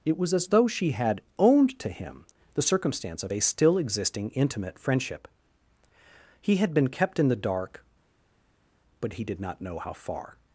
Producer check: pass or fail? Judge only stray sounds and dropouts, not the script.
pass